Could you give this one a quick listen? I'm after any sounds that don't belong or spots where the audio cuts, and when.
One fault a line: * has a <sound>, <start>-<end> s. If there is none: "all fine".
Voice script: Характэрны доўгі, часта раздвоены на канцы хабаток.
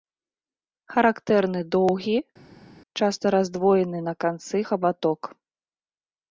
all fine